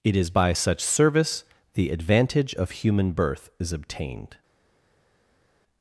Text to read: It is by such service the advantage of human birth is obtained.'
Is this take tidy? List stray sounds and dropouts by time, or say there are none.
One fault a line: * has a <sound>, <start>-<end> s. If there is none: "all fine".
all fine